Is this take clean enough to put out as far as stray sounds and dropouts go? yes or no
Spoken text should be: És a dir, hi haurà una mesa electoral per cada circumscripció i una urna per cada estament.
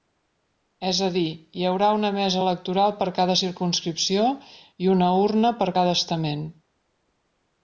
yes